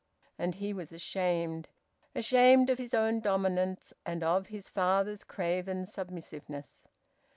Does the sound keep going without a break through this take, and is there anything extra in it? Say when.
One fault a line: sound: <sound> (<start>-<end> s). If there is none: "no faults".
no faults